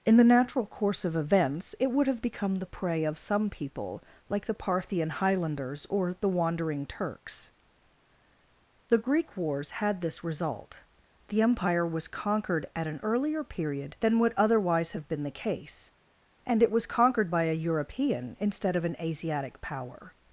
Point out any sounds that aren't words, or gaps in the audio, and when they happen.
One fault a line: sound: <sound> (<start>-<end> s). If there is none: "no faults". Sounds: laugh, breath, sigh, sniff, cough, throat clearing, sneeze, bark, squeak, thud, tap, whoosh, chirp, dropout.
no faults